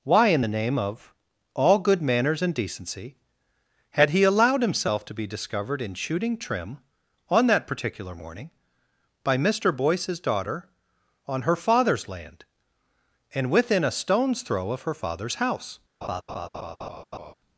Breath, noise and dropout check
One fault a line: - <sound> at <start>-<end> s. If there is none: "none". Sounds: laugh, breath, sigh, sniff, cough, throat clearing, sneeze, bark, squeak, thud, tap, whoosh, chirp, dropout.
- laugh at 16.0-17.3 s